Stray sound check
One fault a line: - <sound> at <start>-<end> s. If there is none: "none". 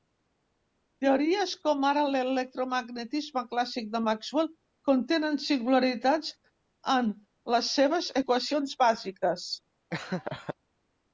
- laugh at 9.9-10.5 s